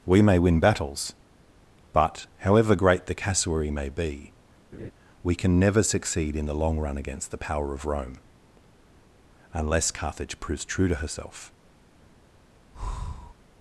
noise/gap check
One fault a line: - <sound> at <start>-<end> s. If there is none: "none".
- laugh at 4.7-4.9 s
- breath at 12.7-13.3 s